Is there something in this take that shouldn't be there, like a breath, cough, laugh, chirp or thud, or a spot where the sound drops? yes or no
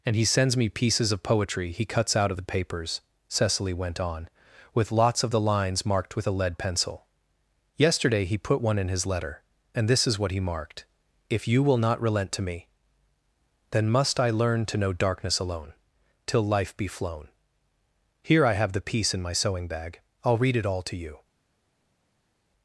no